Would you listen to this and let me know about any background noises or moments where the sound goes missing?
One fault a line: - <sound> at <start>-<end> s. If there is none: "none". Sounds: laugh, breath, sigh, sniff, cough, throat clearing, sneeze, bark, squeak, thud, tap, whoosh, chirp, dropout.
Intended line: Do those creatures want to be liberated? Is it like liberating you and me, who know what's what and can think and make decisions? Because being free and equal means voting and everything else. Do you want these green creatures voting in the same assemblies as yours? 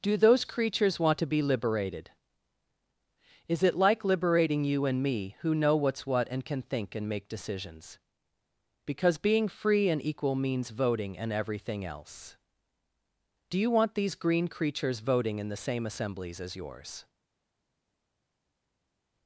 none